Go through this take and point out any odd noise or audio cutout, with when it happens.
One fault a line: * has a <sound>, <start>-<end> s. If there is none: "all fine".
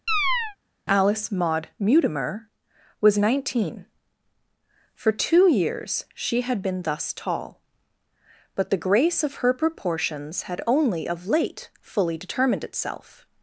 * has a chirp, 0.1-0.6 s